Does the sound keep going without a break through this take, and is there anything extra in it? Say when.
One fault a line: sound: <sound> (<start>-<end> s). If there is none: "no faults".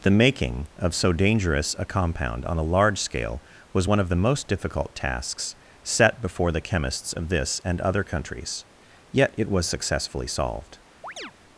sound: chirp (11.0-11.3 s)